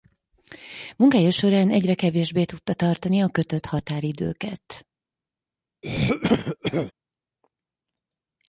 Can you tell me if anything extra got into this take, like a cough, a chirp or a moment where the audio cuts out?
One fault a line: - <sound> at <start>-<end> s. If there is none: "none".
- throat clearing at 5.8-6.9 s